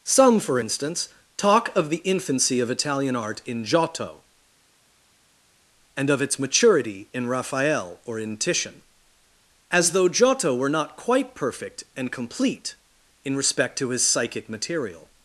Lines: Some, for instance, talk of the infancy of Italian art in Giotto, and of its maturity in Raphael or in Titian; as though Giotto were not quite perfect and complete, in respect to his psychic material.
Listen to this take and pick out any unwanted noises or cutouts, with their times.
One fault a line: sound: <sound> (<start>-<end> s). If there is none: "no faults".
no faults